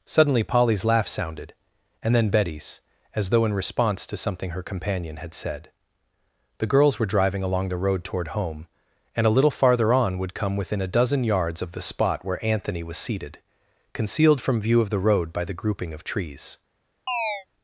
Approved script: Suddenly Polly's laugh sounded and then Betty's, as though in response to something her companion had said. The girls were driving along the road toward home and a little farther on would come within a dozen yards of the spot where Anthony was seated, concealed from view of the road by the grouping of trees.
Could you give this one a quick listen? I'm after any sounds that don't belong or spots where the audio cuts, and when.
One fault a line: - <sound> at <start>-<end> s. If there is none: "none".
- chirp at 17.1-17.5 s